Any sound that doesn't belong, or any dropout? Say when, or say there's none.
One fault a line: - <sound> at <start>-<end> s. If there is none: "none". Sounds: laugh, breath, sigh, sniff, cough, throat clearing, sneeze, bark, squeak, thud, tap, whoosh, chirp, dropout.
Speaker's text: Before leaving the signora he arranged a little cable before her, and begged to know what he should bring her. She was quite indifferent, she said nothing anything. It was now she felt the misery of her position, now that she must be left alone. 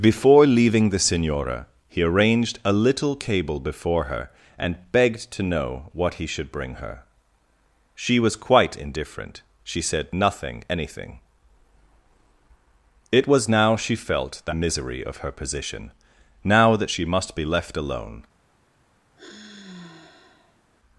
- sigh at 19.2-20.6 s